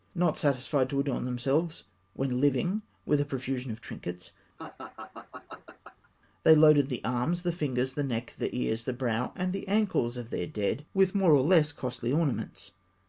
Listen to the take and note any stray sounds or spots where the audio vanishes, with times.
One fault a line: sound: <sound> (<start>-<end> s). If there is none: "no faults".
sound: laugh (4.6-6.1 s)